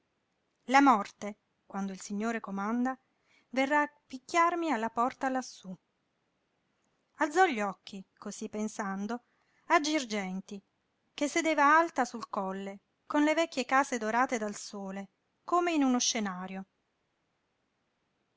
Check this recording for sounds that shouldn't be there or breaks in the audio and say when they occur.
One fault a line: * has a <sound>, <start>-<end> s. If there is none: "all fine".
all fine